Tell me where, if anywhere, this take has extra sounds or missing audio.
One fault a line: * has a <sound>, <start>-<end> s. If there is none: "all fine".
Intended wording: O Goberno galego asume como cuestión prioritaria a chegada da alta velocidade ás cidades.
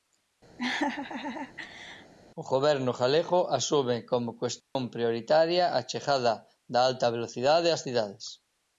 * has a laugh, 0.6-2.1 s
* has a dropout, 4.6-4.8 s